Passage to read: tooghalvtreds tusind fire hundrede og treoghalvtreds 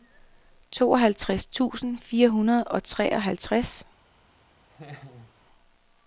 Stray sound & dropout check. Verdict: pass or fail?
fail